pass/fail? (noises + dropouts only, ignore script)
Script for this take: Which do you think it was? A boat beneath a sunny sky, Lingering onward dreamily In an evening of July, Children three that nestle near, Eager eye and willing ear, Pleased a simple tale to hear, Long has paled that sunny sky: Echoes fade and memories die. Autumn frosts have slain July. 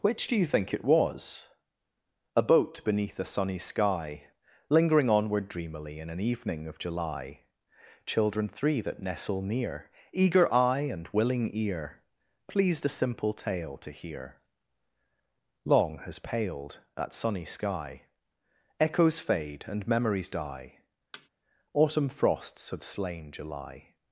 fail